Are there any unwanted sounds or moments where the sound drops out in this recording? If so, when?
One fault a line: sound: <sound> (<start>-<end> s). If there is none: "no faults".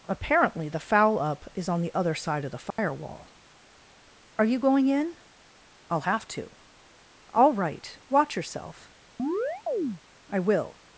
sound: dropout (2.7-2.8 s)
sound: chirp (9.2-10.0 s)